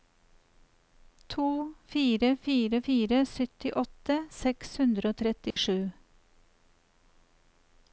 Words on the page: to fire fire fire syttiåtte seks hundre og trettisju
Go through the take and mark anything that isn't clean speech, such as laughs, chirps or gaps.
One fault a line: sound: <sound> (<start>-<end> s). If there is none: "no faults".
sound: dropout (5.5-5.6 s)